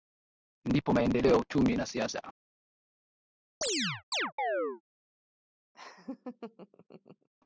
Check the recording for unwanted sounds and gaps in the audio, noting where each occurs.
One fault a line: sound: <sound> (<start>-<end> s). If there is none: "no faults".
sound: chirp (3.6-4.8 s)
sound: laugh (5.7-7.3 s)